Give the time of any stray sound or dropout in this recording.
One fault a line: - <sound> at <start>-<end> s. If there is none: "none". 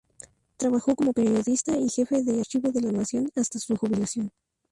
none